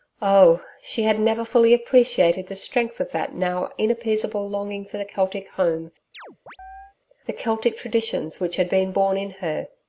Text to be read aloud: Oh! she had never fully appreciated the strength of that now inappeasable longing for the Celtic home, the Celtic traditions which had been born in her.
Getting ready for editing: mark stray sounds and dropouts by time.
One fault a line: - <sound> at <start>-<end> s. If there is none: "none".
- chirp at 6.1-7.0 s